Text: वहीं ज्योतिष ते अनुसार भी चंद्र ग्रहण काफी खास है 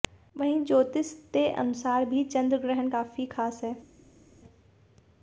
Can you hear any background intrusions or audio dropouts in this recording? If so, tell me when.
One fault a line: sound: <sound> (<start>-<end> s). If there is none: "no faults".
no faults